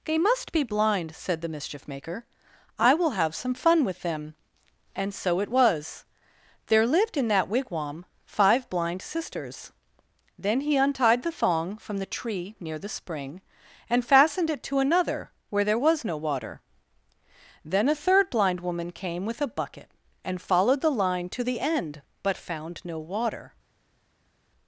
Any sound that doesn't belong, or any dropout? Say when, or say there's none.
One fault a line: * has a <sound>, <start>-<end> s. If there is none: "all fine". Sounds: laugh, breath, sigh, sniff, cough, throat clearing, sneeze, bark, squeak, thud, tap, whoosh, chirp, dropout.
all fine